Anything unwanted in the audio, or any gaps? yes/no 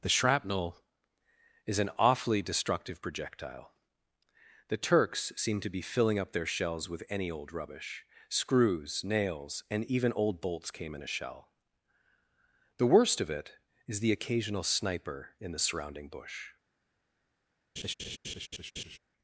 yes